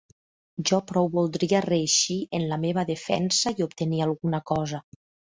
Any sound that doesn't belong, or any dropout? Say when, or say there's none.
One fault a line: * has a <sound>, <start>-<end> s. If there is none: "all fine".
all fine